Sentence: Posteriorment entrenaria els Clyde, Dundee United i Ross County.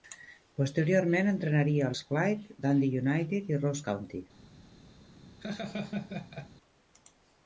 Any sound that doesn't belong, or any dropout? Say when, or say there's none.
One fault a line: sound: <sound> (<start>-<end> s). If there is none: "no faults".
sound: laugh (5.4-6.5 s)